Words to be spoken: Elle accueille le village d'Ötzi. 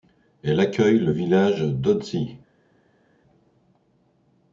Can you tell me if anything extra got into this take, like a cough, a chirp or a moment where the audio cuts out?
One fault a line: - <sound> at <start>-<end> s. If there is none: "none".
none